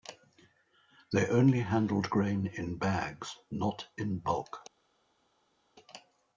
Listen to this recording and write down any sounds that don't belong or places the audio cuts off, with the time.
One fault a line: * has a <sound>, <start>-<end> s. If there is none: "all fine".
all fine